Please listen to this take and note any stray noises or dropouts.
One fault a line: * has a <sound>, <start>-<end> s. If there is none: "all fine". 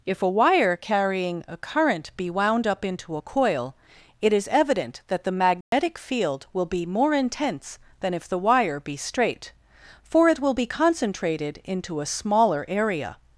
* has a dropout, 5.6-5.7 s